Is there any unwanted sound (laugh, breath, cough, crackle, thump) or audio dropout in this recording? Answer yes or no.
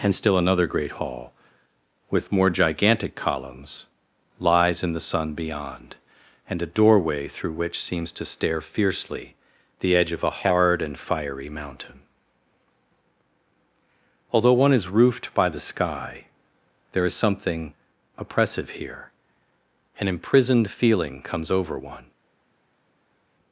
no